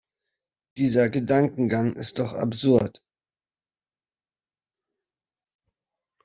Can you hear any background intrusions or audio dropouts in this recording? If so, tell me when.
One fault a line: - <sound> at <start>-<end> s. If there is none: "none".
none